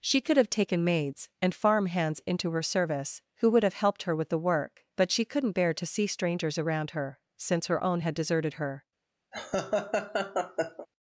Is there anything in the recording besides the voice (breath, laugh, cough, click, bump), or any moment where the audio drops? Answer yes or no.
yes